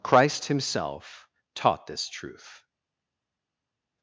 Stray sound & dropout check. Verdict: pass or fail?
pass